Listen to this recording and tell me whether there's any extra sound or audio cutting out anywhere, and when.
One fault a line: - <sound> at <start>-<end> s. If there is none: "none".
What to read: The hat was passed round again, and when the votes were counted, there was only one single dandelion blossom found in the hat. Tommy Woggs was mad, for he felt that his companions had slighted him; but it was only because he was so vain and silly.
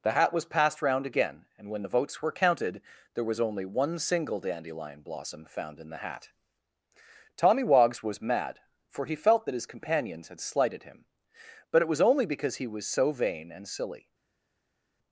none